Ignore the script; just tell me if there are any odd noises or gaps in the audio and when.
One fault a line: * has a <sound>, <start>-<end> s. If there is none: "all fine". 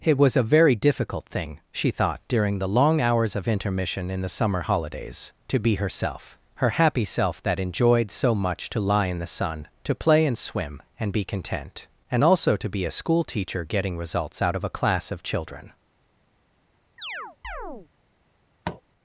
* has a chirp, 17.0-17.9 s
* has a tap, 18.6-18.8 s